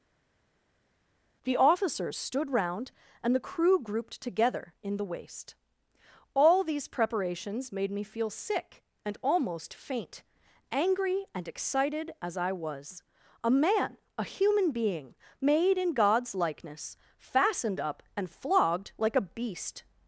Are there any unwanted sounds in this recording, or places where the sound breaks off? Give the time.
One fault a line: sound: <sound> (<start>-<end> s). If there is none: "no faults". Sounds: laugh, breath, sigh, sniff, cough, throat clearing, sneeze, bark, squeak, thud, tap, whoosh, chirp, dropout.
no faults